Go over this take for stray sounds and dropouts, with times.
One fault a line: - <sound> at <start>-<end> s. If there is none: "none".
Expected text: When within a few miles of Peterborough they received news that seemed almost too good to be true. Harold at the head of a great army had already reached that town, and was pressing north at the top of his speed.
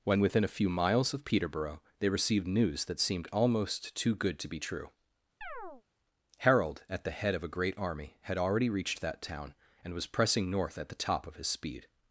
- chirp at 5.4-5.8 s